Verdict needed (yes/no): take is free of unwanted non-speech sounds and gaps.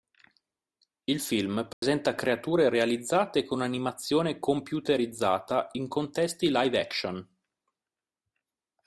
no